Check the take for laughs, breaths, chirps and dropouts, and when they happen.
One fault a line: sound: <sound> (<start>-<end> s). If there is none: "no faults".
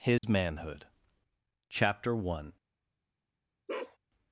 sound: dropout (0.2-0.2 s)
sound: bark (3.7-4.0 s)